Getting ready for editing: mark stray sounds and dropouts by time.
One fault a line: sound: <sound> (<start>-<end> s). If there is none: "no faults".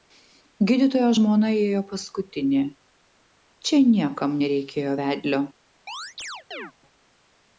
sound: chirp (5.9-6.7 s)